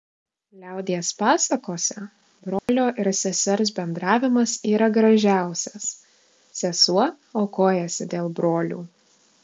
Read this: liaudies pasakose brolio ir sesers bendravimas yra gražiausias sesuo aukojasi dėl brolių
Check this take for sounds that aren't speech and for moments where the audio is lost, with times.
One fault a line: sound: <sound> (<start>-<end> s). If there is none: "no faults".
sound: dropout (2.6-2.7 s)